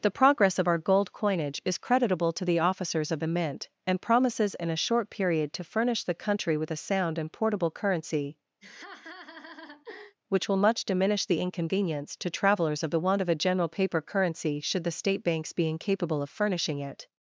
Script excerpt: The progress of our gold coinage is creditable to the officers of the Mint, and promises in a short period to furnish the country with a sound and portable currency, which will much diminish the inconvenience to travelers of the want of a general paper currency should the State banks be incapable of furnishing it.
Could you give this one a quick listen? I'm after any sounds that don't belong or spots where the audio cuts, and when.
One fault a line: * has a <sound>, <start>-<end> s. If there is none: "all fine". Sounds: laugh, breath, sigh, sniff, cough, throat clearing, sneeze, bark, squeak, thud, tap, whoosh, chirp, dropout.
* has a laugh, 8.6-10.2 s